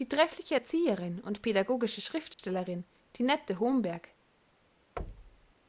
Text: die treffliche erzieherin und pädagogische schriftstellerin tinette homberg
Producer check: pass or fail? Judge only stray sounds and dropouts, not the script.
fail